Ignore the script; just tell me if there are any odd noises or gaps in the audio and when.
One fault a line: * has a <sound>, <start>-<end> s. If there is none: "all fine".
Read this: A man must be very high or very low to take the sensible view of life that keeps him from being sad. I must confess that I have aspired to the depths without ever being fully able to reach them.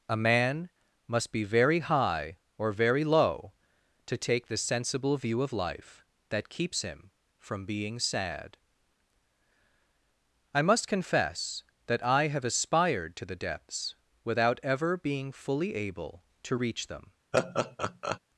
* has a laugh, 17.3-18.2 s